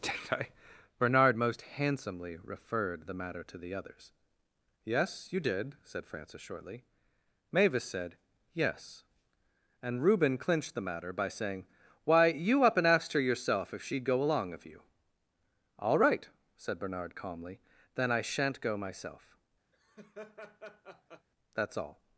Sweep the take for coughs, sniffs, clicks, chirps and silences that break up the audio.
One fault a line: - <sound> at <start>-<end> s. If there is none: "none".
- laugh at 19.7-21.3 s